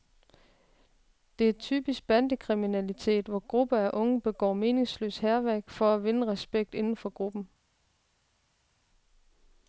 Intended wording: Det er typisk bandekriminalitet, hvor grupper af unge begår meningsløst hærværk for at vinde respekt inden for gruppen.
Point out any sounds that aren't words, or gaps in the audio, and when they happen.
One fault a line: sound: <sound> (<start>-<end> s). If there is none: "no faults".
no faults